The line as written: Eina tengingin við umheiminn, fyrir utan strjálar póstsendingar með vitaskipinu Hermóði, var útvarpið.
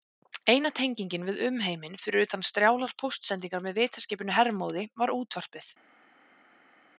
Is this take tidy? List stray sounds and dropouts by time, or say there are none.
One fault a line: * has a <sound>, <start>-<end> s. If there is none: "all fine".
all fine